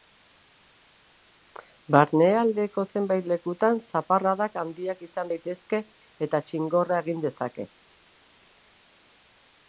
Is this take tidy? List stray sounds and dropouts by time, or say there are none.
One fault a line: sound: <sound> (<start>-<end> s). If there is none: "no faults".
no faults